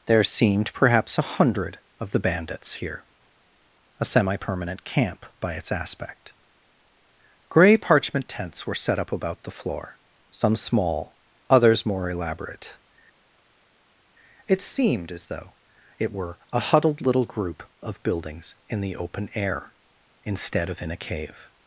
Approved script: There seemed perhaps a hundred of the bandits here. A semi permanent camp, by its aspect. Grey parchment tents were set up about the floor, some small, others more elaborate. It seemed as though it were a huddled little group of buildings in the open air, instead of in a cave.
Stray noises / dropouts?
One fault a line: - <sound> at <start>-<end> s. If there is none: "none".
none